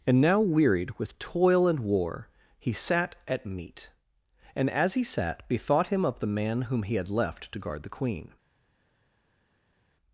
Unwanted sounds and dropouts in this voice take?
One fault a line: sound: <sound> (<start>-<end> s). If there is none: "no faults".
no faults